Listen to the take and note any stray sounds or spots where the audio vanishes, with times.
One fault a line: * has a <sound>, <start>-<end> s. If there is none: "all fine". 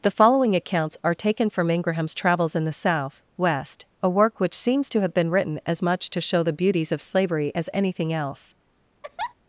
* has a laugh, 9.0-9.3 s